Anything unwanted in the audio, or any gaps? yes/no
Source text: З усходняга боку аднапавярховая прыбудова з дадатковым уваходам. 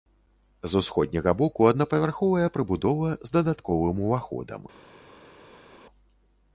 no